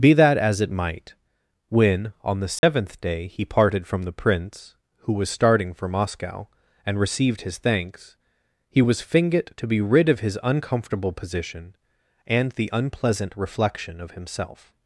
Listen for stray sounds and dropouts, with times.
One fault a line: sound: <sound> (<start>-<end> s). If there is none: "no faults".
sound: dropout (2.6-2.6 s)